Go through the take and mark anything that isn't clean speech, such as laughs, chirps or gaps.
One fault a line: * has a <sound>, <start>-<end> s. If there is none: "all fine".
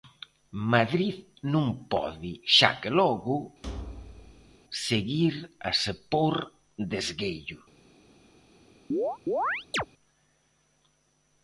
* has a thud, 3.6-4.6 s
* has a chirp, 8.9-9.9 s